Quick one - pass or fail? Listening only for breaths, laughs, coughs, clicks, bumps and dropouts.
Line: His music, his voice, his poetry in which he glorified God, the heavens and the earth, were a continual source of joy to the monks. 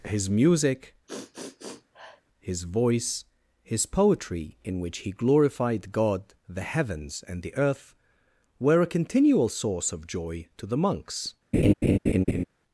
fail